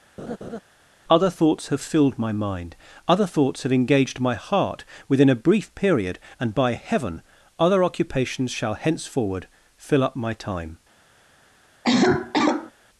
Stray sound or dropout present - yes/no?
yes